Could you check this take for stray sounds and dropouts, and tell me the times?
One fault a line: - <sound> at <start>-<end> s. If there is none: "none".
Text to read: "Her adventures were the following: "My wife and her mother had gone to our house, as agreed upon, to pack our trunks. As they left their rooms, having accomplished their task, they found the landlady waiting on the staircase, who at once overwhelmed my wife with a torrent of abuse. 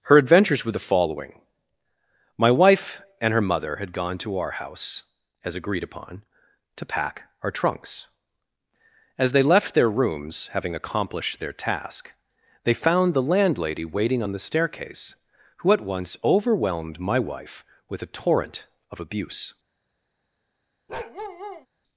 - bark at 20.9-21.7 s